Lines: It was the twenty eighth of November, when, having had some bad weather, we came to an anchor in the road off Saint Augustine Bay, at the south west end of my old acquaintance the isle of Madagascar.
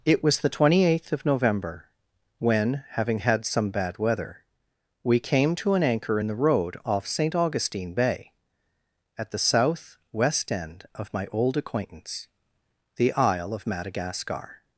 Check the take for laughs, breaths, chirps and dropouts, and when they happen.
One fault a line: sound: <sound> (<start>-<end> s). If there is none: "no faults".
no faults